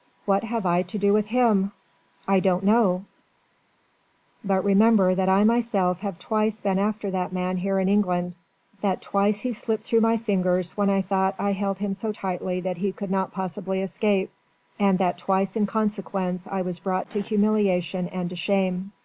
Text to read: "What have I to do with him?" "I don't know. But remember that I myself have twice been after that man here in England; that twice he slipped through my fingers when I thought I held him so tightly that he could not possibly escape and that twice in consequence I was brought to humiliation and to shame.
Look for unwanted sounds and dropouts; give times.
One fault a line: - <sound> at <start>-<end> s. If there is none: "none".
none